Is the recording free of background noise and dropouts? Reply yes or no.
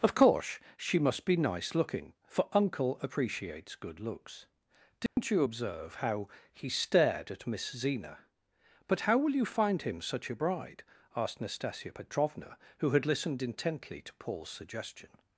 no